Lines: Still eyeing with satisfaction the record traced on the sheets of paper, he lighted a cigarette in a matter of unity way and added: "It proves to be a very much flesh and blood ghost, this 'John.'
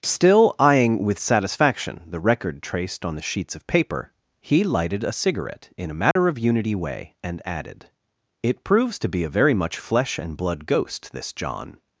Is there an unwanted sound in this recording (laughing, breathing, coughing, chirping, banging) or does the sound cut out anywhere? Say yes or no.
yes